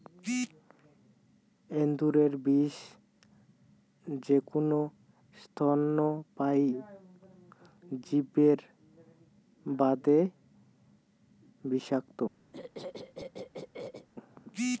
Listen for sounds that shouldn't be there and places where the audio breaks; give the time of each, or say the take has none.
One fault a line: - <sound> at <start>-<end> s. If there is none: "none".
- throat clearing at 12.5-14.1 s